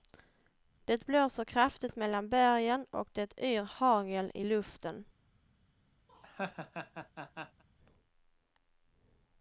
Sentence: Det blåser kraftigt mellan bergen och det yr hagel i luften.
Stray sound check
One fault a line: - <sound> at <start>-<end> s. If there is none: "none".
- laugh at 6.1-7.6 s